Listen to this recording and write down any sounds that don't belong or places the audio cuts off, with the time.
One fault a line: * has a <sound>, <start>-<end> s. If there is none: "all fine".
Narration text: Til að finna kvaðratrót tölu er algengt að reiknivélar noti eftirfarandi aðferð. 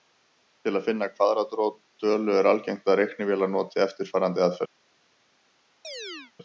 * has a chirp, 5.8-6.3 s